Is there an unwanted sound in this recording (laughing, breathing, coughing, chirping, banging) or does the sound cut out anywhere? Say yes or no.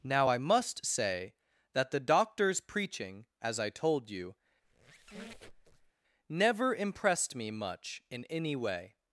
yes